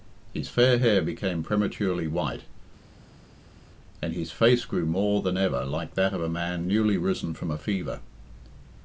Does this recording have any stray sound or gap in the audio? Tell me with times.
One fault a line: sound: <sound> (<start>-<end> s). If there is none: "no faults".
no faults